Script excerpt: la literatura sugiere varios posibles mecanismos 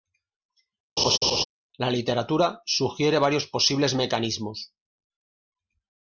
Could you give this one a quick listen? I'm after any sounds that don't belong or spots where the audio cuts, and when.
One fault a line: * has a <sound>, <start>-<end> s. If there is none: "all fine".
* has a laugh, 1.0-1.4 s